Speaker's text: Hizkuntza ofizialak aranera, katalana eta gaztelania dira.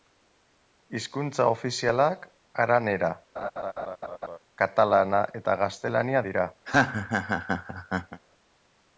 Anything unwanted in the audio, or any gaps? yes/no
yes